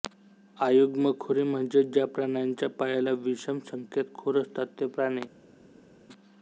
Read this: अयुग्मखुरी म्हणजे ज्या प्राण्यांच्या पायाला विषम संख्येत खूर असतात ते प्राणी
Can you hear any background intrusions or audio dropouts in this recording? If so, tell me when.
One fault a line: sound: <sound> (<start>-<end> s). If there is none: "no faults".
no faults